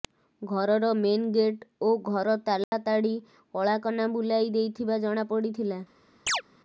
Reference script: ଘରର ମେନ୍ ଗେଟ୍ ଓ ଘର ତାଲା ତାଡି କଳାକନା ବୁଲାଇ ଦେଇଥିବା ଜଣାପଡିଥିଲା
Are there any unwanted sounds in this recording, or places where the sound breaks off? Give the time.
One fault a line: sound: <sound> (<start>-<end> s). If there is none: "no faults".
sound: dropout (2.6-2.7 s)
sound: chirp (6.3-6.4 s)